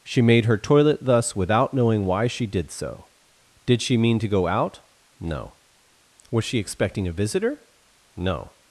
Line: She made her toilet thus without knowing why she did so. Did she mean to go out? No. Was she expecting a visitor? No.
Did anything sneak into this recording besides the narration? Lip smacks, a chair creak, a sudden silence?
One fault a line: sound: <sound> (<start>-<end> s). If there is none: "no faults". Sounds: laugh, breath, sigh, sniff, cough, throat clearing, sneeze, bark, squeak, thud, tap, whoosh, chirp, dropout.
no faults